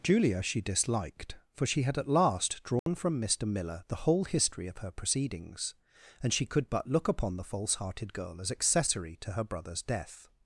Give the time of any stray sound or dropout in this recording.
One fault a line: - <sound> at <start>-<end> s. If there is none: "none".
- dropout at 2.8-2.9 s